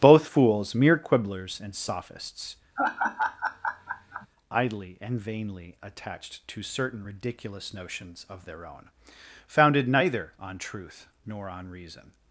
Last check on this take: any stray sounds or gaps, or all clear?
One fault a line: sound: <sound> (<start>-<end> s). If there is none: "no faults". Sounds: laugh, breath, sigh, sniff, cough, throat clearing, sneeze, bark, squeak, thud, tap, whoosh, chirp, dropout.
sound: laugh (2.8-4.3 s)